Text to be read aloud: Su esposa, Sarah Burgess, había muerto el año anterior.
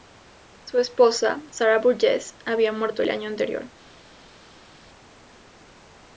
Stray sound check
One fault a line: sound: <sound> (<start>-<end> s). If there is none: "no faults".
no faults